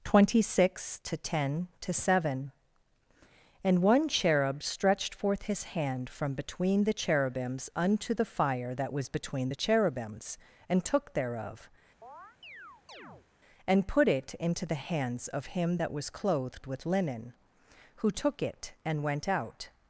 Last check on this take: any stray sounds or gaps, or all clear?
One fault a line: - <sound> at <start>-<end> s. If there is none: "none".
- chirp at 12.0-13.3 s